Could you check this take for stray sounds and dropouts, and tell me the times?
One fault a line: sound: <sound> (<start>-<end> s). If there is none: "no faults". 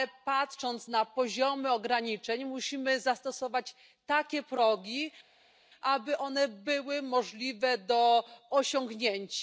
no faults